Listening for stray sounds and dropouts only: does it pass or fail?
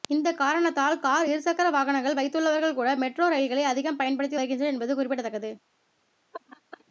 fail